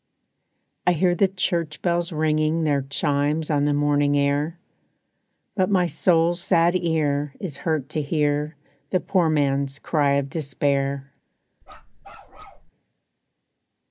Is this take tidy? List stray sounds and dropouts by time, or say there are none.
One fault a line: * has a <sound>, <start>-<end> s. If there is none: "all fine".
* has a bark, 11.6-12.7 s